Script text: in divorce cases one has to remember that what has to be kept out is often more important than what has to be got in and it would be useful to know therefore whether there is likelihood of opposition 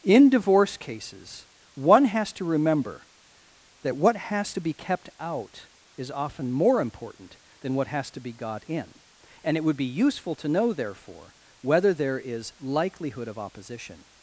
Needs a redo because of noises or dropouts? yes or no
no